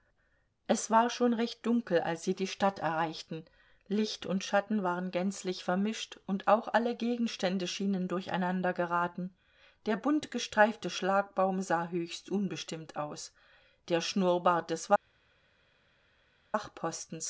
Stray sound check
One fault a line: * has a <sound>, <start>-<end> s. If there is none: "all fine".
all fine